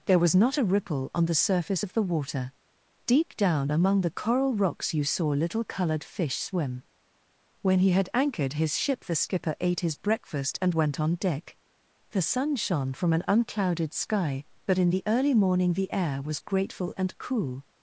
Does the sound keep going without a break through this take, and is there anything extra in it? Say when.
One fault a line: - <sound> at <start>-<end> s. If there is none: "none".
none